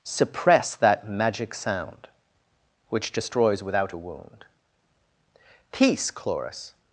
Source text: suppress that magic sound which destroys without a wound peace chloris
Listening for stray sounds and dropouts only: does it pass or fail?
pass